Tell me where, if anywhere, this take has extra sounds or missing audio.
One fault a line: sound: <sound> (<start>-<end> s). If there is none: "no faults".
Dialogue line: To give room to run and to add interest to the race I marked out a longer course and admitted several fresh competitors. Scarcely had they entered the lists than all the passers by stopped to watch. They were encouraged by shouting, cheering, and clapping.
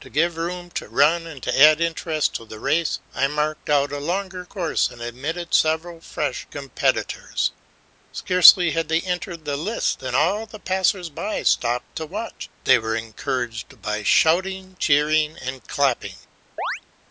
sound: chirp (16.6-16.8 s)